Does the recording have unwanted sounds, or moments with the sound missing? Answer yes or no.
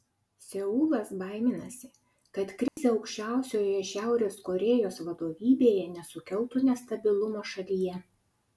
yes